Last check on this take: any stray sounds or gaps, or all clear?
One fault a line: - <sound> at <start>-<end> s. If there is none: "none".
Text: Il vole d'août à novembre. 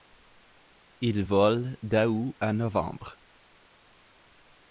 none